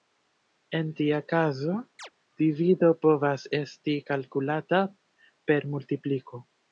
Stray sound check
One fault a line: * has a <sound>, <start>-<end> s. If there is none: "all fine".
* has a chirp, 2.0-2.1 s